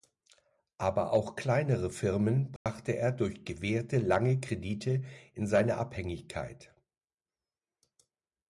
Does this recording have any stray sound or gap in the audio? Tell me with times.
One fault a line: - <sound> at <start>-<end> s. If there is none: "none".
- dropout at 2.6-2.7 s